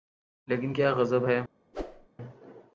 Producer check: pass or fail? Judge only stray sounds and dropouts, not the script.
fail